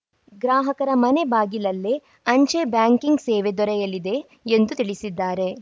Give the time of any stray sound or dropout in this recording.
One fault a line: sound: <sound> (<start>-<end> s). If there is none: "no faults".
no faults